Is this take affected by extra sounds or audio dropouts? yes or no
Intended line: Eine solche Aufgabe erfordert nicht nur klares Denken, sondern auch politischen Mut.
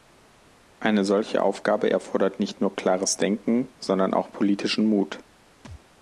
yes